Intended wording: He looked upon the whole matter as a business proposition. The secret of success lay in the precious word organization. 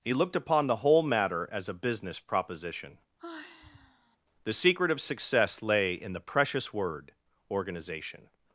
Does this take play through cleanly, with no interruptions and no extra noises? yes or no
no